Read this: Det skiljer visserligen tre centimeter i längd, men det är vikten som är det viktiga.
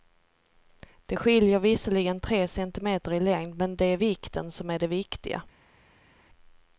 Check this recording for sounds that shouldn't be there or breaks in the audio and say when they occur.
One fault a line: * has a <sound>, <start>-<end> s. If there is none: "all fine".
all fine